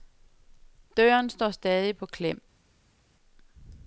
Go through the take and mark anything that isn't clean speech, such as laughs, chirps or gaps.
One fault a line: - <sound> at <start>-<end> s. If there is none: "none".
none